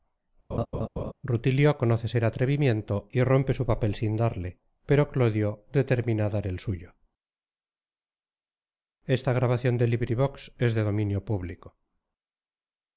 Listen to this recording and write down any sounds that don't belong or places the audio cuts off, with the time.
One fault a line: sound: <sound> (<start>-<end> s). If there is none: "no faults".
sound: laugh (0.5-1.1 s)